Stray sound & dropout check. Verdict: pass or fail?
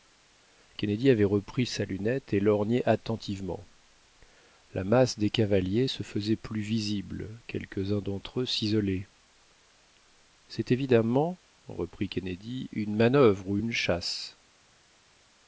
pass